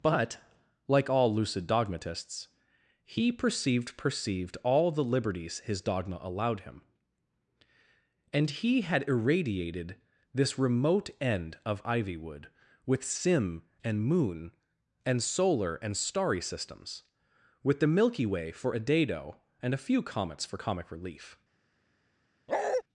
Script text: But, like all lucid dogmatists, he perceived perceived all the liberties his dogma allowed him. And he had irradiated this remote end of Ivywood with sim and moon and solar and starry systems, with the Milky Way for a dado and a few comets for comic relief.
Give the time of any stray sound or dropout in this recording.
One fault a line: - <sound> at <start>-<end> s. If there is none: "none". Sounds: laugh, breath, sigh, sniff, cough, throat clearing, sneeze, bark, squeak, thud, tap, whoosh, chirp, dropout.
- bark at 22.5-22.8 s